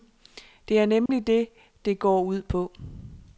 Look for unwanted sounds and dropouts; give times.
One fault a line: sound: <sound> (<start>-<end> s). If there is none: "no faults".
sound: dropout (1.1-1.1 s)